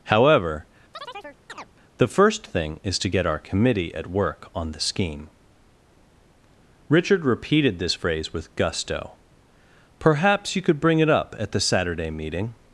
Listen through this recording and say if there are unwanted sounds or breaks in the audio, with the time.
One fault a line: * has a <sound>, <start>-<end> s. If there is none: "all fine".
* has a chirp, 0.9-1.7 s